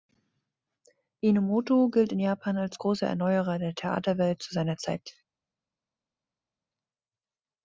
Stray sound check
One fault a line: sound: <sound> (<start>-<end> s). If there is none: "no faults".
no faults